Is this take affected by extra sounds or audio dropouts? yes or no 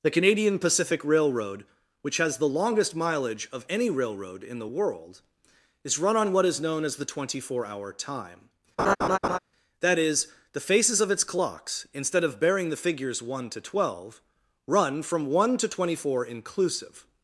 yes